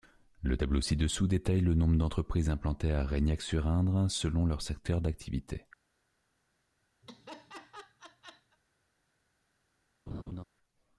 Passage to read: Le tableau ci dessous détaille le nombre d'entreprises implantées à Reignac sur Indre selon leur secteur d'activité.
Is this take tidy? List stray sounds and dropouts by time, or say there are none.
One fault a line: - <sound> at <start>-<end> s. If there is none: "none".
- laugh at 7.0-8.6 s
- laugh at 10.1-10.4 s